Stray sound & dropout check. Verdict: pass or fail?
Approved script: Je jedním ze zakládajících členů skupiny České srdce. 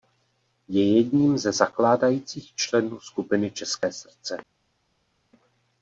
pass